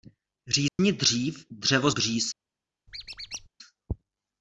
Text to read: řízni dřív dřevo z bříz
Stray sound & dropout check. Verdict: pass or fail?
fail